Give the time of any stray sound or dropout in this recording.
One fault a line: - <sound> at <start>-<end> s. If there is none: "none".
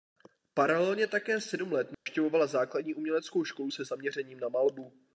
- dropout at 1.9-2.1 s